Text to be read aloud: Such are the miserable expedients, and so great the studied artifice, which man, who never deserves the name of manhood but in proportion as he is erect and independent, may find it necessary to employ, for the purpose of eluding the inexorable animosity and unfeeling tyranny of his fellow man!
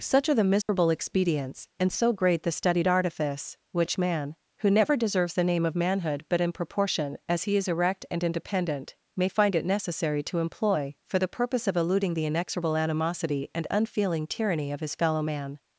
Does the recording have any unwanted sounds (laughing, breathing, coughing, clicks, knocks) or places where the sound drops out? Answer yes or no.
yes